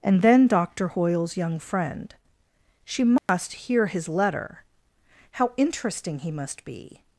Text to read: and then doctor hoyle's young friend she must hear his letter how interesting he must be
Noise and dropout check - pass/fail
fail